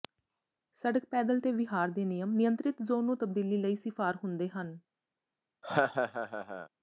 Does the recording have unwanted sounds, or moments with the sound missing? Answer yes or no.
yes